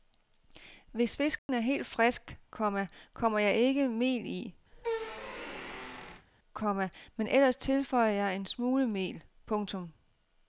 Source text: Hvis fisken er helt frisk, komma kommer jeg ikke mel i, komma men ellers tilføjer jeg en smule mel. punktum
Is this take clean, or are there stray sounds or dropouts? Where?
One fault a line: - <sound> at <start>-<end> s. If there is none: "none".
- dropout at 1.4-1.5 s
- squeak at 4.7-6.3 s